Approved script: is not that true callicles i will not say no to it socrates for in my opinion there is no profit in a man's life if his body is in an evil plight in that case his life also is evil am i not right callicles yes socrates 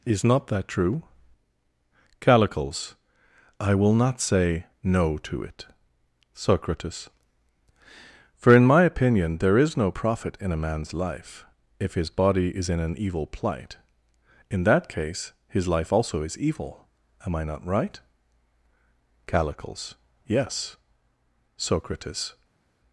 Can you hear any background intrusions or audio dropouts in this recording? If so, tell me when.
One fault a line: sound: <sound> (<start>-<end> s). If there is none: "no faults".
no faults